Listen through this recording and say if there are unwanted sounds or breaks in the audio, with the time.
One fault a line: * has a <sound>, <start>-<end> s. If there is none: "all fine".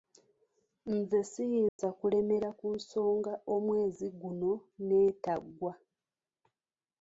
* has a dropout, 1.7-1.8 s